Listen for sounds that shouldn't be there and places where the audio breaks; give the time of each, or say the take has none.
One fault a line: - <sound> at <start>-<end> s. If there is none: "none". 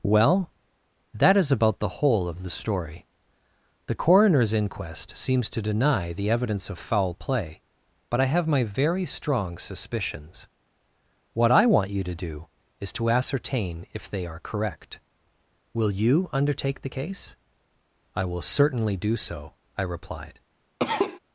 - cough at 20.8-21.2 s